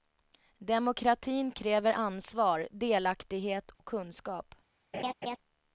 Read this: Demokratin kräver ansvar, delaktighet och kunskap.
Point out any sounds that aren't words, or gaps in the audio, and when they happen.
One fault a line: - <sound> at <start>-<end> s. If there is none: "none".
- dropout at 3.7-3.8 s
- laugh at 4.9-5.4 s